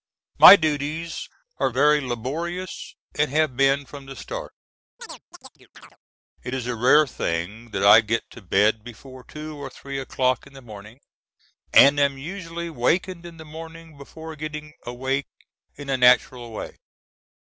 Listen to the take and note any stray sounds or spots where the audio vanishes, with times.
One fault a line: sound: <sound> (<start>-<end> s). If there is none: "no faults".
sound: chirp (5.0-6.0 s)